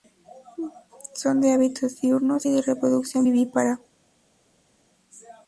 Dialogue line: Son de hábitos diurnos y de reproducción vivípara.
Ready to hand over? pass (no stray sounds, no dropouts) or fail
pass